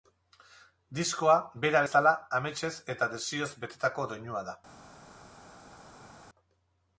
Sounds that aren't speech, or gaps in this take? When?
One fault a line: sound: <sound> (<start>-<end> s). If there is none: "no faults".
no faults